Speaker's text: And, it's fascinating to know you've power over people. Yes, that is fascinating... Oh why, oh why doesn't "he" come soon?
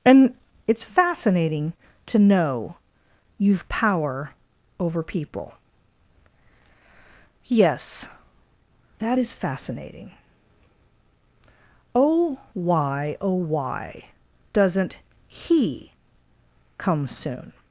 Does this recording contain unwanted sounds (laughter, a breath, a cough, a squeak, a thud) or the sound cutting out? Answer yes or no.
no